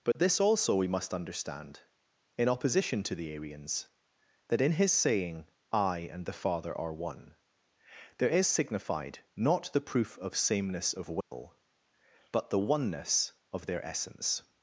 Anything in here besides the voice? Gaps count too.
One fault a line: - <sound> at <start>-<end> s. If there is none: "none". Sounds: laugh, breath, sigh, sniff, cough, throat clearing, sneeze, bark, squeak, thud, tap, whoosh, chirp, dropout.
- dropout at 0.1-0.2 s
- dropout at 11.2-11.3 s